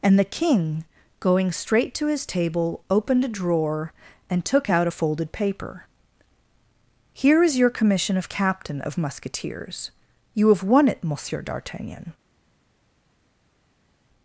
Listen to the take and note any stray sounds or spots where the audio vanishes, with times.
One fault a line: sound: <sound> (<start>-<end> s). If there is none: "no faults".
no faults